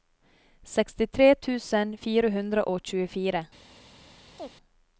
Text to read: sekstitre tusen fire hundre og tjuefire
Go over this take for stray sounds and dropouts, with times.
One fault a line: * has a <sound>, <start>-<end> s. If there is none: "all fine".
* has a chirp, 4.4-4.5 s